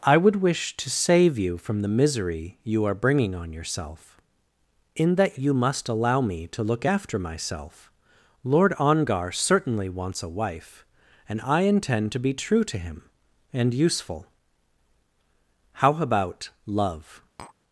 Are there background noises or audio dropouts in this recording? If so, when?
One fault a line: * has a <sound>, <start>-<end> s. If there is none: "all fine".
* has a tap, 17.4-17.6 s